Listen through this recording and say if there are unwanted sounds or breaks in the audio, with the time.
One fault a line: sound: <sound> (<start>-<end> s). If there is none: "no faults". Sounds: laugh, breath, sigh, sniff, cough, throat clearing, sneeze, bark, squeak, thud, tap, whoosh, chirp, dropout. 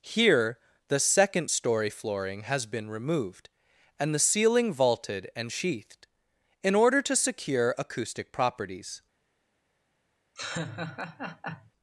sound: laugh (10.4-11.7 s)